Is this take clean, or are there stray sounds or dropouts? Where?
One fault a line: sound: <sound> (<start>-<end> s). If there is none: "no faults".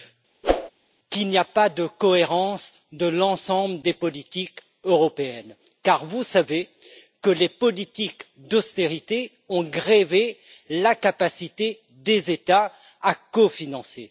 sound: whoosh (0.4-0.7 s)